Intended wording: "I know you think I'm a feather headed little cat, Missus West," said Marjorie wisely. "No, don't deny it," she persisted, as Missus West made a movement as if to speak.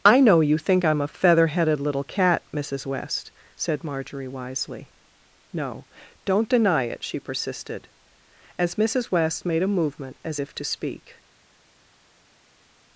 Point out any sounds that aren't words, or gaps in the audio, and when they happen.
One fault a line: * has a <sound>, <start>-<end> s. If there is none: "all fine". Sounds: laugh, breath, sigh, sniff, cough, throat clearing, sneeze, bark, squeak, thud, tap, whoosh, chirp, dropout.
all fine